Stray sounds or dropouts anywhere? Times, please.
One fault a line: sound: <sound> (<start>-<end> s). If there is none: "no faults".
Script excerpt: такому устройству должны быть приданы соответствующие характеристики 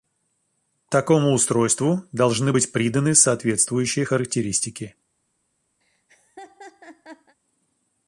sound: laugh (5.8-7.4 s)